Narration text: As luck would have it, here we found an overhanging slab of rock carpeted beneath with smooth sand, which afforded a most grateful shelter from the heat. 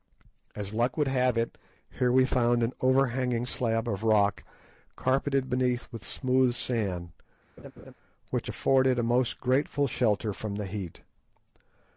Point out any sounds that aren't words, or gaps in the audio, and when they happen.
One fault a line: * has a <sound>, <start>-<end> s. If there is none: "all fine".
* has a laugh, 7.6-7.9 s